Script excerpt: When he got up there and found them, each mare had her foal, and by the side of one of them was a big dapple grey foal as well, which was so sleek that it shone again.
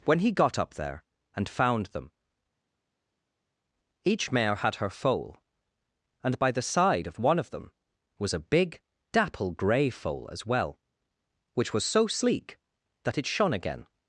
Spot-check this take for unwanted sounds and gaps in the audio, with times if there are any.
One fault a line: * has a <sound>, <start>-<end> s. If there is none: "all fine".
all fine